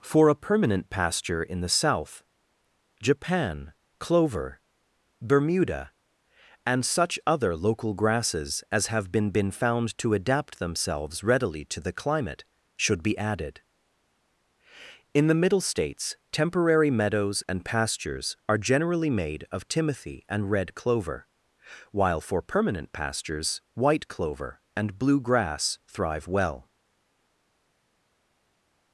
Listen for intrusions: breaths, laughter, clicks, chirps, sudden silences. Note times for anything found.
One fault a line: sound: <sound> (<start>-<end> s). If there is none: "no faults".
no faults